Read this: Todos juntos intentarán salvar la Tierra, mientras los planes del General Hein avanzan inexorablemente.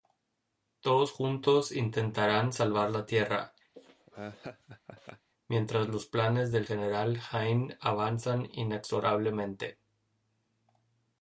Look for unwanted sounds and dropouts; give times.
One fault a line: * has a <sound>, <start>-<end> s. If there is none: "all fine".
* has a laugh, 3.7-5.3 s